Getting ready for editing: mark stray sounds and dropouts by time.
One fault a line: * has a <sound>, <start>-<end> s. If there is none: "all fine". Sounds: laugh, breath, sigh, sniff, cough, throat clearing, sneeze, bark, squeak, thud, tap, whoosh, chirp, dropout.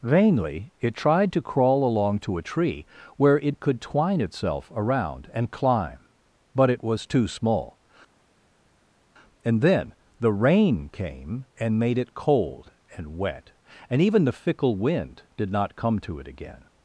all fine